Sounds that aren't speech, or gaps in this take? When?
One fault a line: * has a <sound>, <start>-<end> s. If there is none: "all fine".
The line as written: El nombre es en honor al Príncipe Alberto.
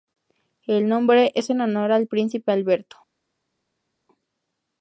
all fine